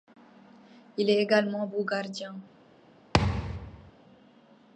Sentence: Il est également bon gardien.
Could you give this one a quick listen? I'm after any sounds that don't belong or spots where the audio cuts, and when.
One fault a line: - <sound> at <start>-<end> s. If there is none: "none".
- thud at 3.1-3.9 s